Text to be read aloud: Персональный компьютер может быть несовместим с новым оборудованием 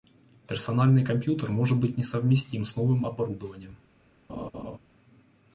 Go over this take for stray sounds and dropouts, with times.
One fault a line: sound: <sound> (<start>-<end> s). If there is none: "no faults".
sound: laugh (4.3-4.8 s)